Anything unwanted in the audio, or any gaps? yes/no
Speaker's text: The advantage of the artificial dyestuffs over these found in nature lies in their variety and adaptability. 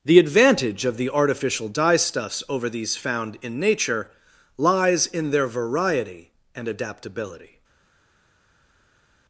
no